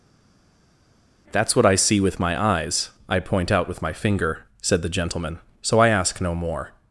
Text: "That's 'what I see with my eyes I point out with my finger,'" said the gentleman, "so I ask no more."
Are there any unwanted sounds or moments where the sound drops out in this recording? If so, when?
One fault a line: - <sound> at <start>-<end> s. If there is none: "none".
none